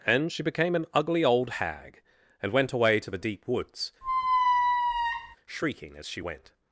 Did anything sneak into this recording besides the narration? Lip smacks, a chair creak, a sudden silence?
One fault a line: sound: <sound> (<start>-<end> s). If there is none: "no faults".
sound: squeak (4.0-5.4 s)